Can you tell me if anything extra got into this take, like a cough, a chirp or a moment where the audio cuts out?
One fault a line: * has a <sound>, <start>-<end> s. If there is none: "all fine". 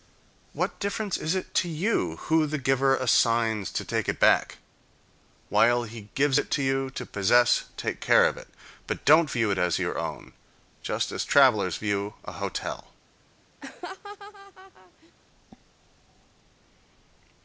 * has a laugh, 13.6-15.1 s